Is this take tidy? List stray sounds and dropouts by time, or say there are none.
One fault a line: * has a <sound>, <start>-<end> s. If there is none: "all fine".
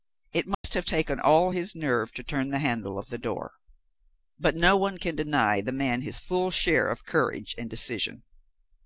* has a dropout, 0.5-0.6 s